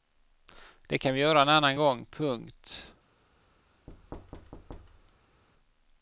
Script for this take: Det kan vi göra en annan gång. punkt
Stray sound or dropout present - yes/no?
yes